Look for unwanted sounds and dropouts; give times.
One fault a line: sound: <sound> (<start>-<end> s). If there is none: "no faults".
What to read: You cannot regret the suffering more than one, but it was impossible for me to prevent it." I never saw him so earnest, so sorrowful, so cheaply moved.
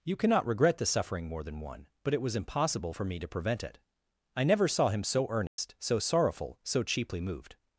sound: dropout (5.5-5.6 s)